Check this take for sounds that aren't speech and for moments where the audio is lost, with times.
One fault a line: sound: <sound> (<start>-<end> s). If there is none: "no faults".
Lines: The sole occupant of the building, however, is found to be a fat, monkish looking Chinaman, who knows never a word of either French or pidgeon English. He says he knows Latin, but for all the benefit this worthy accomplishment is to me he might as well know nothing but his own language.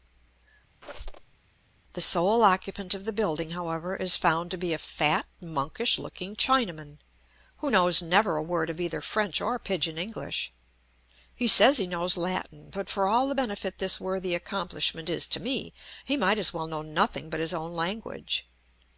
sound: squeak (0.8-1.3 s)